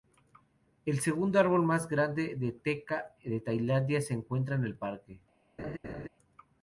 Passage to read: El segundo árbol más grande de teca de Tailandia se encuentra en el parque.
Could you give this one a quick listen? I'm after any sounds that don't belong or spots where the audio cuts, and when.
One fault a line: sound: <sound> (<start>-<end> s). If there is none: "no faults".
sound: laugh (5.6-6.1 s)